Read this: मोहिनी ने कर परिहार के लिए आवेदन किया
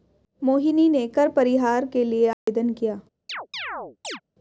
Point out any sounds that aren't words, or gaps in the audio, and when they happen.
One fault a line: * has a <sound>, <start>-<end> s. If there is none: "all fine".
* has a dropout, 2.3-2.5 s
* has a chirp, 3.3-4.2 s